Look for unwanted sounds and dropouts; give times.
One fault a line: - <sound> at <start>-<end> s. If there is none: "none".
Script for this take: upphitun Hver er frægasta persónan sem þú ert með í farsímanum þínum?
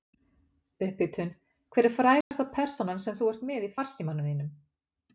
- dropout at 2.2-2.3 s